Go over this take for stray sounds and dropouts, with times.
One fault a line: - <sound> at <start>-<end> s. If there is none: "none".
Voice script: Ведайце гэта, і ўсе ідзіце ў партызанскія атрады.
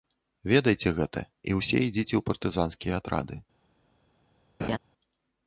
- laugh at 4.6-4.8 s